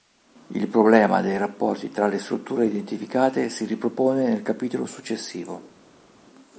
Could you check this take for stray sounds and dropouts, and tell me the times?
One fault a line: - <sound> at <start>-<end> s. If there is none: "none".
none